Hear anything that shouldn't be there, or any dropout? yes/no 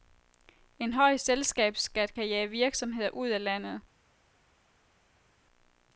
no